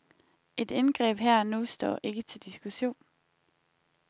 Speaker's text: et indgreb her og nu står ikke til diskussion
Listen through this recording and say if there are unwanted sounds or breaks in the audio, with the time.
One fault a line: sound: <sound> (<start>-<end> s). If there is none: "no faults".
no faults